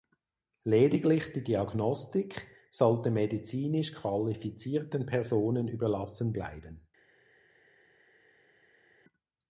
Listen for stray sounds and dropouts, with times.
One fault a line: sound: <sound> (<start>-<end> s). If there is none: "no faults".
no faults